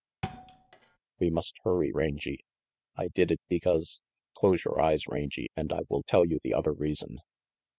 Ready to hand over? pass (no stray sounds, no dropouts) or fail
fail